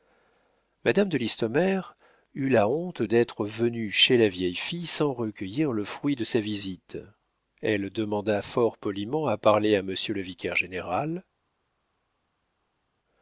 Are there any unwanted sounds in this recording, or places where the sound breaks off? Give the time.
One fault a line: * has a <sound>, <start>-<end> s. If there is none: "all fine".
all fine